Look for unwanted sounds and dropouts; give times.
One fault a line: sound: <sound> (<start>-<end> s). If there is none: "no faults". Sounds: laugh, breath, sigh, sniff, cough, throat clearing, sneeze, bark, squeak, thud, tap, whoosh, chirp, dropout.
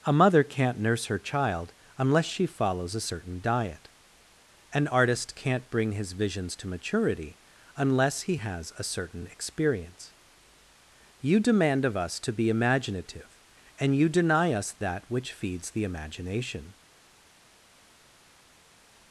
no faults